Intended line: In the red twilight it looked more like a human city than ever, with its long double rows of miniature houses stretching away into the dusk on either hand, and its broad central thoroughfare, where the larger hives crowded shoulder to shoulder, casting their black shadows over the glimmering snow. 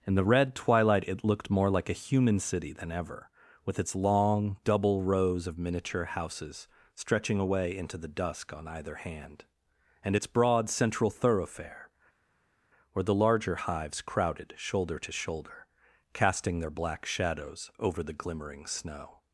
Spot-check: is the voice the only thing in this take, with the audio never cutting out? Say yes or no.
yes